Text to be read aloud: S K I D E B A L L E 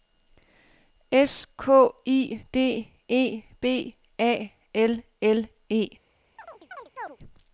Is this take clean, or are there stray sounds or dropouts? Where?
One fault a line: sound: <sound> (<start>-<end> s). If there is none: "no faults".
sound: chirp (6.4-7.2 s)